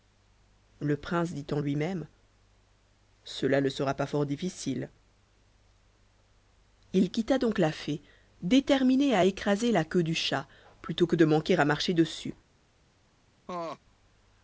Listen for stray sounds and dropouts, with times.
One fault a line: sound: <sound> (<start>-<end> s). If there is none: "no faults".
sound: laugh (13.5-13.8 s)